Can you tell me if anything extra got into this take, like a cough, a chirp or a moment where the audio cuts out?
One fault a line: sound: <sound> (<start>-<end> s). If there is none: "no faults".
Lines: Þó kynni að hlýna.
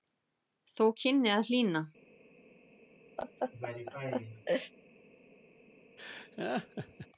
sound: laugh (3.2-4.7 s)
sound: laugh (6.0-7.1 s)